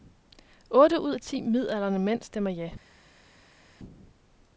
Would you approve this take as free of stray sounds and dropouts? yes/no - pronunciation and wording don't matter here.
yes